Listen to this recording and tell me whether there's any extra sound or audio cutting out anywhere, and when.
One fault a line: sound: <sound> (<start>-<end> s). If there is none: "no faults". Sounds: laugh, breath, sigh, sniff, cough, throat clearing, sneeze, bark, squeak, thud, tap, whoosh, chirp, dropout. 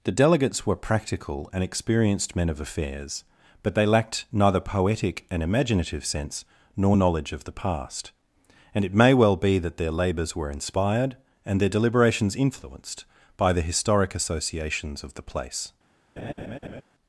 sound: laugh (16.2-16.8 s)